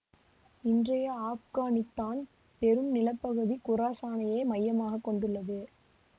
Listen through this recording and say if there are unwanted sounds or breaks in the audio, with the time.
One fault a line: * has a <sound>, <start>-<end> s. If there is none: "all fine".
all fine